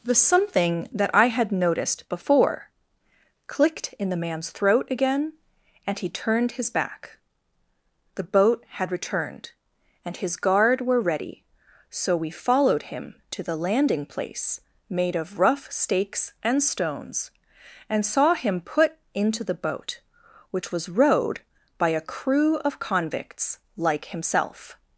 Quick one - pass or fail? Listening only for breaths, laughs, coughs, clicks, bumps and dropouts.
pass